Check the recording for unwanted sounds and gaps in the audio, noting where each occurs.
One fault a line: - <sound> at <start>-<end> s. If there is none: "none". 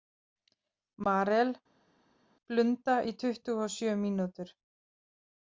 none